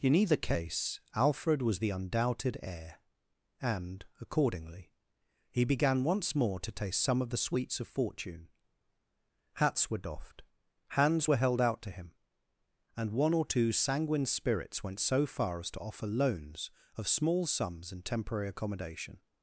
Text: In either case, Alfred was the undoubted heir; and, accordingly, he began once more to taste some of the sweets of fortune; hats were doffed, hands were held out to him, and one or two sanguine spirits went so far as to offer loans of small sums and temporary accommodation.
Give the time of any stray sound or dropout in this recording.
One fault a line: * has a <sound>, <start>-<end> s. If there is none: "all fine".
all fine